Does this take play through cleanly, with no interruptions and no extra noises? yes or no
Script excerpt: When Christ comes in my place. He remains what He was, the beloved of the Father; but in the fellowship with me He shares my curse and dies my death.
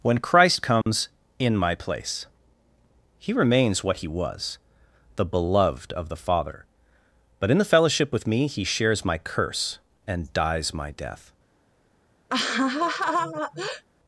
no